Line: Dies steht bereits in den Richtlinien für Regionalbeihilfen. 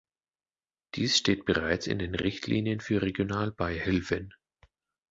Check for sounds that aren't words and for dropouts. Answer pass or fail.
pass